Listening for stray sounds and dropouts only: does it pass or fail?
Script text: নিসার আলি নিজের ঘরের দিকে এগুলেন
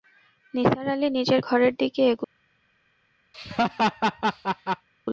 fail